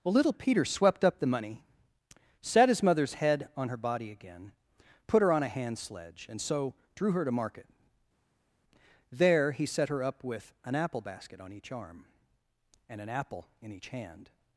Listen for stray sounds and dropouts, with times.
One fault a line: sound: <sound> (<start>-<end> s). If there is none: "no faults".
no faults